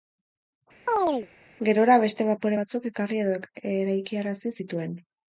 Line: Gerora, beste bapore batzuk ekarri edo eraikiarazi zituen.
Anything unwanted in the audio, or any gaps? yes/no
yes